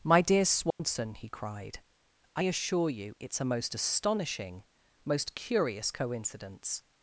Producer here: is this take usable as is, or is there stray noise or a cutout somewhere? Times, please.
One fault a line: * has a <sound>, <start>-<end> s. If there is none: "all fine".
* has a dropout, 0.7-0.8 s